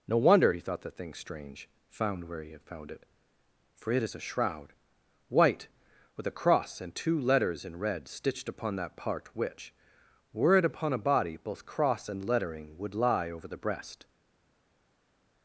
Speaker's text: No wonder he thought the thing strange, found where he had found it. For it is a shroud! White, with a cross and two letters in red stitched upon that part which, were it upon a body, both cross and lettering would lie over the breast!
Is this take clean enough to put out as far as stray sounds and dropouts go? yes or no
yes